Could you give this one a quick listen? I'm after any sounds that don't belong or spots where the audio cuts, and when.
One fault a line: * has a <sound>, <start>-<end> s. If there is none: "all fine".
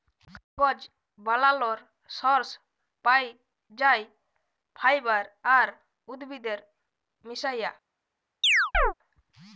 * has a chirp, 8.4-8.9 s